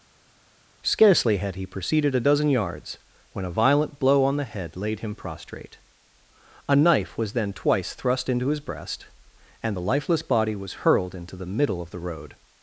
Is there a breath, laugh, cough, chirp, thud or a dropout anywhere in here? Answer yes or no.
no